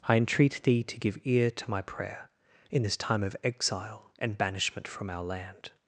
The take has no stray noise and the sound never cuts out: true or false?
true